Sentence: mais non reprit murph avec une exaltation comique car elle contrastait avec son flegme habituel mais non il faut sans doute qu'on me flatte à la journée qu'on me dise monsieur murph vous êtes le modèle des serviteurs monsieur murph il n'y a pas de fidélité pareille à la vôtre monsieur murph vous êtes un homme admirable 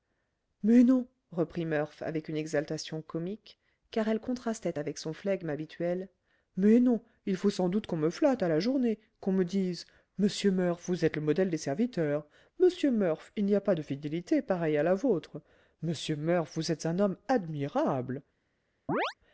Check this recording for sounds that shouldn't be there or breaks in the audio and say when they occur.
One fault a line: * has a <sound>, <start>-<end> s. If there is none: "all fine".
* has a chirp, 18.9-19.1 s